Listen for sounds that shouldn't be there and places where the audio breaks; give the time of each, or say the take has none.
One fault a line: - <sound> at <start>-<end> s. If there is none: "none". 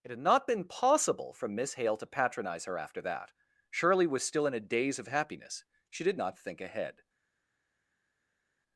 none